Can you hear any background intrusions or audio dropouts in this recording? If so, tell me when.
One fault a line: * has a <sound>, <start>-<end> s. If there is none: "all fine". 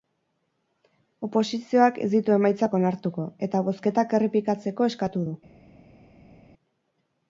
all fine